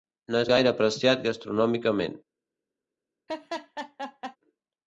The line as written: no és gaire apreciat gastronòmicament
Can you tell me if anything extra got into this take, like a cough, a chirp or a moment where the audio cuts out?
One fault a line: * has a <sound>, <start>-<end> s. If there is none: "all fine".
* has a laugh, 3.3-4.4 s